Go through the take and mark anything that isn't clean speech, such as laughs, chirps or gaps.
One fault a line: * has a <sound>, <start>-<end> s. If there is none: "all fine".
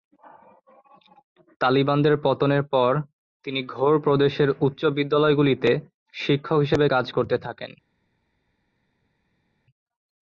all fine